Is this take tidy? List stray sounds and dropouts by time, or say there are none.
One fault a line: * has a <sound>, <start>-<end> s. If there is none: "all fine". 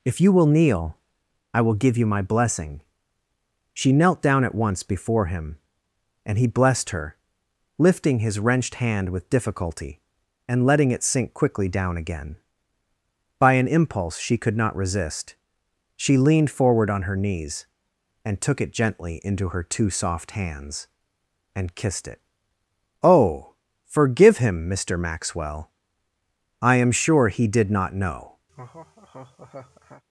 * has a laugh, 28.5-30.0 s